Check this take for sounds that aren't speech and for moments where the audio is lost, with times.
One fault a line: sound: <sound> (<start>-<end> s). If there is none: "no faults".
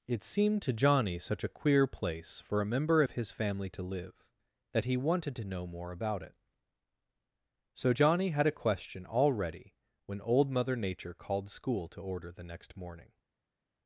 no faults